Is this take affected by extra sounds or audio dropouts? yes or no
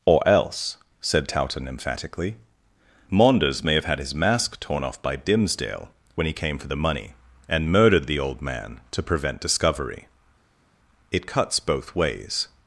no